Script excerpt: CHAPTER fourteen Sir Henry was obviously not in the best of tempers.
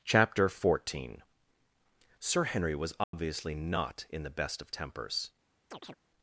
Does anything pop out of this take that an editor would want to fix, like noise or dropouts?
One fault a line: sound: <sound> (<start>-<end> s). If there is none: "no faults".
sound: dropout (3.0-3.1 s)
sound: chirp (5.7-6.0 s)